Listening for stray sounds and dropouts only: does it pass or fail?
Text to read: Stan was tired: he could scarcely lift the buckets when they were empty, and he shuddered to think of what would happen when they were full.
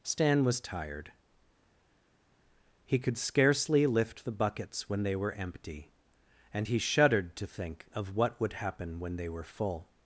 pass